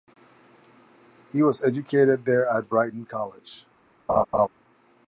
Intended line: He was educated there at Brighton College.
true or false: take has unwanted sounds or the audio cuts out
true